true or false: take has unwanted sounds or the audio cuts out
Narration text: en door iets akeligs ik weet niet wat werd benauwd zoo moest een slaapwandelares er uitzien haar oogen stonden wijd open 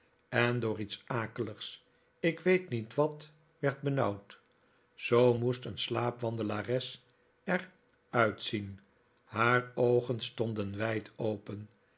false